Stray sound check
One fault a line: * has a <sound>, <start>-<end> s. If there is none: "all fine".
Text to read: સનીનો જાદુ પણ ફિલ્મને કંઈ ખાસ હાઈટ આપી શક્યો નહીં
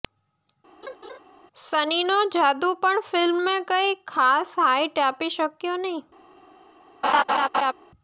* has a laugh, 0.8-1.2 s
* has a laugh, 7.0-7.7 s